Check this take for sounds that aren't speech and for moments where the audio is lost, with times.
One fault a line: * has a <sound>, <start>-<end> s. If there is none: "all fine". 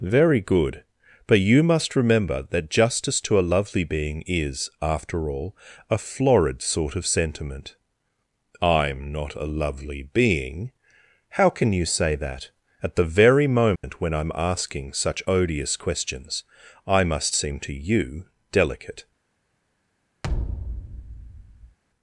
* has a dropout, 13.8-13.8 s
* has a thud, 20.2-21.8 s